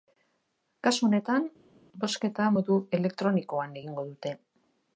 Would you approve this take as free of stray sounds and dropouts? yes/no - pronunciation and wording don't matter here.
yes